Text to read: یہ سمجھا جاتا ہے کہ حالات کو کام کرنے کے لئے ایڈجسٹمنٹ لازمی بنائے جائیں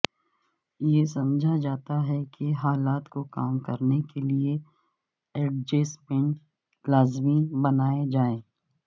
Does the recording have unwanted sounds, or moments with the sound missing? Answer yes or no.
no